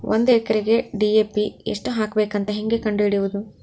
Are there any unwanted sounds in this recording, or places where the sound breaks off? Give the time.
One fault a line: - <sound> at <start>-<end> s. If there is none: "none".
none